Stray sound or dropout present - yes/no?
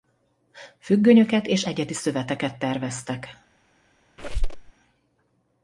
yes